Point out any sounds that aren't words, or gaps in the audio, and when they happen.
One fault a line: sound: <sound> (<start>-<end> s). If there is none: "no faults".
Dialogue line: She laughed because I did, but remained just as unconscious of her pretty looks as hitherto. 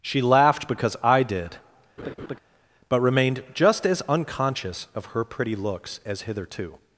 sound: laugh (2.0-2.4 s)